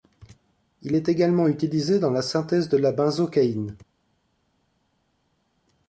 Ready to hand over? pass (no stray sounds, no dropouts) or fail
pass